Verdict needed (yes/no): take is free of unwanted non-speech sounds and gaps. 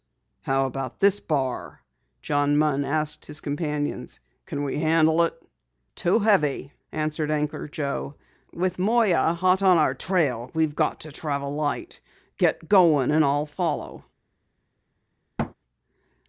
no